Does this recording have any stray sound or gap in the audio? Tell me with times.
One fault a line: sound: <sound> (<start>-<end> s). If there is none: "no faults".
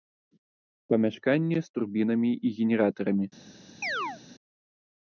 sound: chirp (3.8-4.2 s)